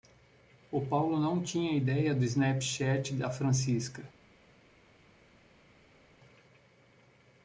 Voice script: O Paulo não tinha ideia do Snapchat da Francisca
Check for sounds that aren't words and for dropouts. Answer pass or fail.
pass